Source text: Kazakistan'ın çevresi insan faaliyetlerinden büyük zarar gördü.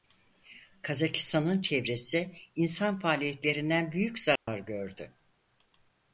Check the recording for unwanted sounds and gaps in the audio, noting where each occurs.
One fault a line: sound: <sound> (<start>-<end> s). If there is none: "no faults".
sound: dropout (4.4-4.5 s)